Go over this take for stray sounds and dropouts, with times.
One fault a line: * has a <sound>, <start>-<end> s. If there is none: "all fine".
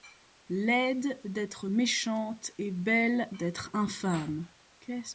all fine